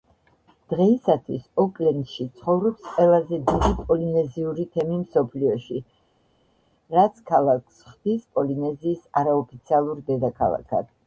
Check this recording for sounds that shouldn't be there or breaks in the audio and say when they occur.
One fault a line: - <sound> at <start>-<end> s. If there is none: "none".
none